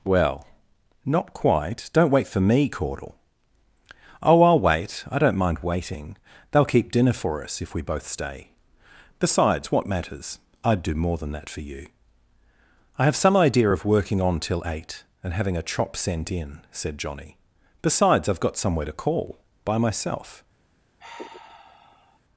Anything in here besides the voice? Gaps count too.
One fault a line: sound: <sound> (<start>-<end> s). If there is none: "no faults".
sound: sigh (21.0-22.2 s)